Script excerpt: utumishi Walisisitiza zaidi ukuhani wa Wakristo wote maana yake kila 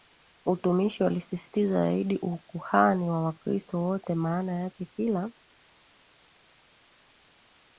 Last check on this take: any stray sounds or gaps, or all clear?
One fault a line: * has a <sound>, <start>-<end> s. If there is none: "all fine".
all fine